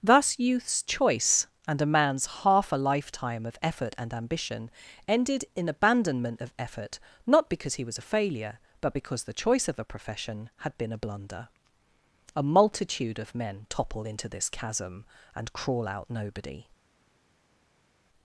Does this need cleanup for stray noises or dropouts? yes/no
no